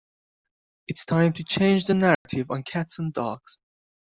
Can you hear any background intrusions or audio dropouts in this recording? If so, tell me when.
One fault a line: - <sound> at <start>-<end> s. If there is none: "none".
- dropout at 2.1-2.3 s